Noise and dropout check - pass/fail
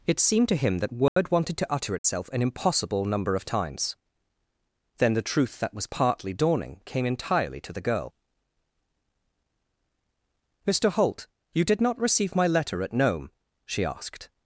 fail